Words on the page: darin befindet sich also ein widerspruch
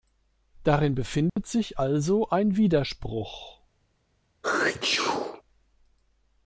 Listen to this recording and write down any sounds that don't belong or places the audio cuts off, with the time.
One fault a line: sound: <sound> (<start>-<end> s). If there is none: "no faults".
sound: dropout (1.3-1.4 s)
sound: sneeze (4.4-5.4 s)